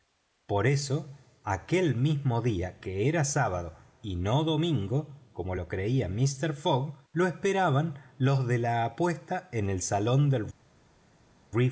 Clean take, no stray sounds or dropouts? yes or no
yes